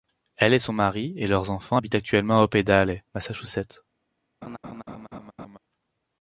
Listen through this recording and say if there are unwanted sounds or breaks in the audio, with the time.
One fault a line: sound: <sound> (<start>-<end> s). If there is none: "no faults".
sound: laugh (4.4-5.6 s)